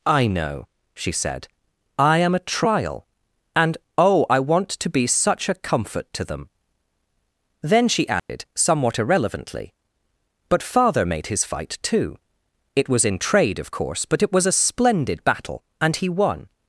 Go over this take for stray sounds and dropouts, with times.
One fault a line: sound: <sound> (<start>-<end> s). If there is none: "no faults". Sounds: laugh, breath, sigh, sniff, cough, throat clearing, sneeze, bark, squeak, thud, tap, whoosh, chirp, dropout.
sound: dropout (8.2-8.3 s)